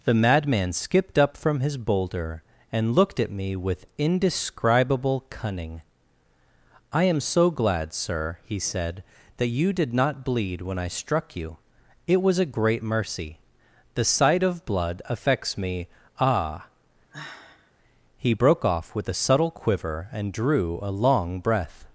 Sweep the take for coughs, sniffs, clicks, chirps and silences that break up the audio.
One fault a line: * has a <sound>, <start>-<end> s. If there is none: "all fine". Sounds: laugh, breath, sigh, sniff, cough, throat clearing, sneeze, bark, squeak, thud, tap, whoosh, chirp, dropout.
* has a sigh, 17.1-17.7 s